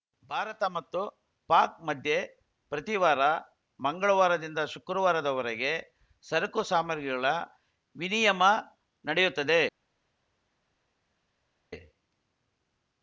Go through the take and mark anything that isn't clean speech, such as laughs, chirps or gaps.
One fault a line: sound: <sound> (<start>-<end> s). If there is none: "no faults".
no faults